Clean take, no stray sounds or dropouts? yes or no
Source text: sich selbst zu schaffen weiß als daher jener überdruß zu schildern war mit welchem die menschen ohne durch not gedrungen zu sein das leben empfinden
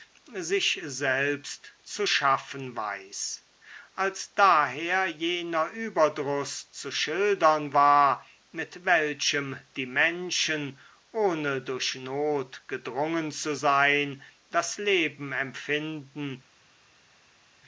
yes